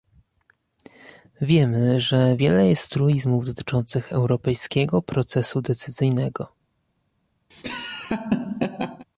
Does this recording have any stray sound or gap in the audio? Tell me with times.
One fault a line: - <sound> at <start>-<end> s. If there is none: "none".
- laugh at 7.5-9.1 s